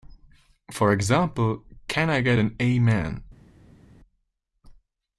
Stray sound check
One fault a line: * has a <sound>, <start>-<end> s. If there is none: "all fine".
all fine